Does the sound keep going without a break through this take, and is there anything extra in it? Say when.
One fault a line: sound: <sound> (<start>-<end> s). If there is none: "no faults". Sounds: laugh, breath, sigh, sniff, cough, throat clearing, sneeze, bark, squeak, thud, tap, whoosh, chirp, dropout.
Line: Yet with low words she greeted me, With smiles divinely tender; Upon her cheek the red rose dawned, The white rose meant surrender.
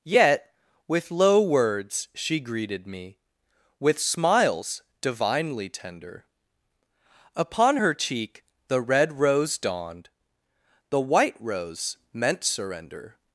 no faults